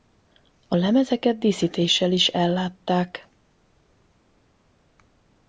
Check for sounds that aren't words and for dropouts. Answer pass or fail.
pass